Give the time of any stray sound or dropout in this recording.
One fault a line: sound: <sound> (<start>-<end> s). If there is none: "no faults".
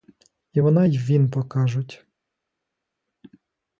no faults